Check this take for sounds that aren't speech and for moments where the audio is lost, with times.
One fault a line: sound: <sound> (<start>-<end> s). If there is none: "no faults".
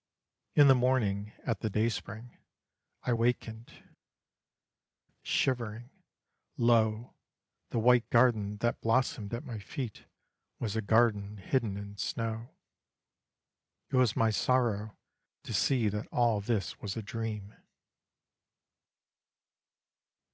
no faults